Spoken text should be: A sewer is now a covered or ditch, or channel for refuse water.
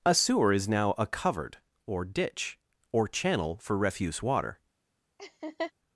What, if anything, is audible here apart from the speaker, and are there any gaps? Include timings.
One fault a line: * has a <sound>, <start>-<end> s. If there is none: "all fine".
* has a laugh, 5.2-5.7 s